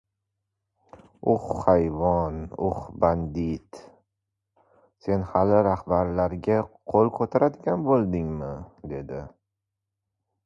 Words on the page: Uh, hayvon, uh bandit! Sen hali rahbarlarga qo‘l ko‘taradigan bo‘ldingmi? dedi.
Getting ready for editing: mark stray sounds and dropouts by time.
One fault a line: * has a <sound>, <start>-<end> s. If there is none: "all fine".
all fine